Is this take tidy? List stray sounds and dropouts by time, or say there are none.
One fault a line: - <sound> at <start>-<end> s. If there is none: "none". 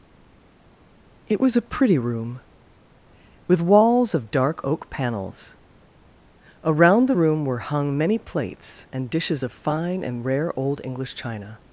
none